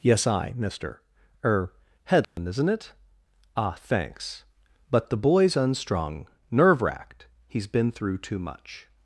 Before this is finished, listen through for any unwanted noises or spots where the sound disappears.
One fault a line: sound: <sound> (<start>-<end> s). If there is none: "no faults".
sound: dropout (2.2-2.4 s)